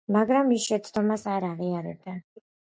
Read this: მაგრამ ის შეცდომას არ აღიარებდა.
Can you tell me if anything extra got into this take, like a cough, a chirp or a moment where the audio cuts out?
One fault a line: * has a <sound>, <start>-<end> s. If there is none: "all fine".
all fine